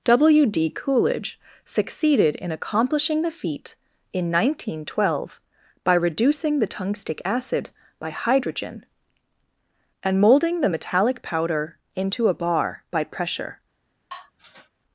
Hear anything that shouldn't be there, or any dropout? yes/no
yes